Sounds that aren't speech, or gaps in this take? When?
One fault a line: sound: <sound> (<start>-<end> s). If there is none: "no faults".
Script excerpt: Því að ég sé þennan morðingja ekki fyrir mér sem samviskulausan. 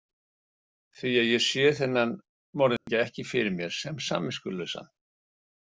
sound: dropout (2.8-2.9 s)